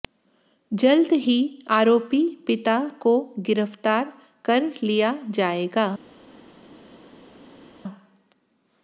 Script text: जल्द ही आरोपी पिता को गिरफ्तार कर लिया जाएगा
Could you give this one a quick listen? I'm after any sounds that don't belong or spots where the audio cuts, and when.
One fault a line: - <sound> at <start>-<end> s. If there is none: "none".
none